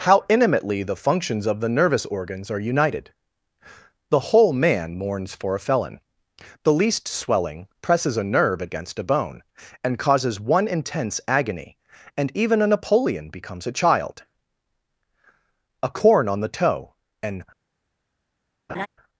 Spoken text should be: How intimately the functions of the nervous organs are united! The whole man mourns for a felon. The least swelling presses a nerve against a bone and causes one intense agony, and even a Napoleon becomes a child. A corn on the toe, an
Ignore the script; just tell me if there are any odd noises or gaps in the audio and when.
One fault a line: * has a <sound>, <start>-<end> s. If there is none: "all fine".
* has a laugh, 18.7-18.9 s